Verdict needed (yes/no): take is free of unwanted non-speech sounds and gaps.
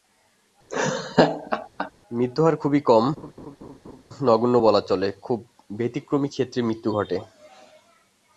no